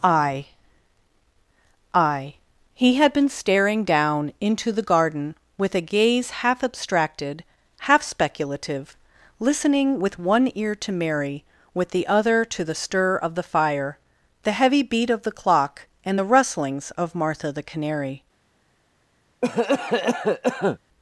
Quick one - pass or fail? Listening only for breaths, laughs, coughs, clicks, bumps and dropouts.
fail